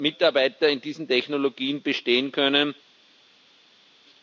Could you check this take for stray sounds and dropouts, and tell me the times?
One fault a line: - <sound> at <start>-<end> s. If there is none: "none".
none